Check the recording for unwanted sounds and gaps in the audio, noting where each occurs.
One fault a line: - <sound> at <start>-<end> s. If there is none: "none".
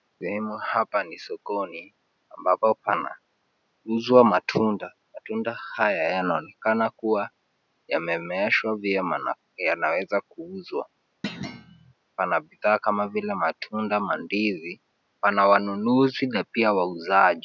- thud at 11.2-11.9 s